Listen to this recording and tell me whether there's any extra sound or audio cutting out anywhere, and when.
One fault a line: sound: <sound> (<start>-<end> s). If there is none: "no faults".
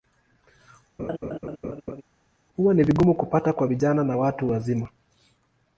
sound: laugh (1.0-2.0 s)